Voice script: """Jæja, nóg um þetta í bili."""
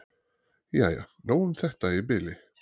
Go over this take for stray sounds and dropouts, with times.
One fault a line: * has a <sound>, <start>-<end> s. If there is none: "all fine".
all fine